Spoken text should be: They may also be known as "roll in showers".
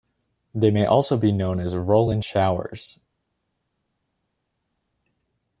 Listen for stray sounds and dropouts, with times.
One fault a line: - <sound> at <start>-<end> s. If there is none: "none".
none